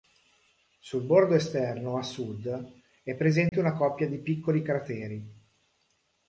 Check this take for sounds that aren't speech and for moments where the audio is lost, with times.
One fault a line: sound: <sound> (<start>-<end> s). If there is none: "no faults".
sound: dropout (3.5-3.5 s)